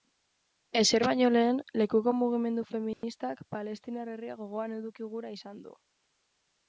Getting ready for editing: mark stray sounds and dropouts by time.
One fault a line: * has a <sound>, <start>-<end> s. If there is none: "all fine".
* has a dropout, 2.9-3.0 s